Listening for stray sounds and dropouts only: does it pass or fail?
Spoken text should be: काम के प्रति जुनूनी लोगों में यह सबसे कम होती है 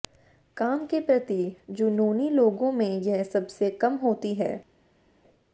pass